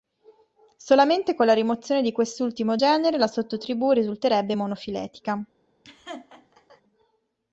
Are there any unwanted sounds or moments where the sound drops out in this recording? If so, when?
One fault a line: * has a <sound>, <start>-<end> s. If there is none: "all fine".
* has a laugh, 5.8-6.8 s